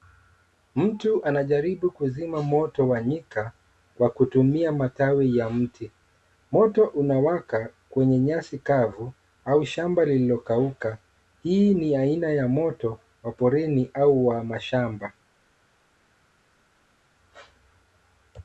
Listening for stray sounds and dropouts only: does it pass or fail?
pass